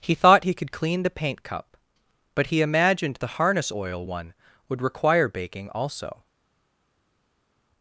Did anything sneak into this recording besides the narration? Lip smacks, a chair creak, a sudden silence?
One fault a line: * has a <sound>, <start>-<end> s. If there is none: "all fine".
all fine